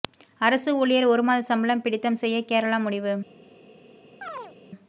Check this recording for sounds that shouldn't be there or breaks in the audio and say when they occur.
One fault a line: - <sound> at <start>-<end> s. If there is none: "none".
- chirp at 4.2-4.5 s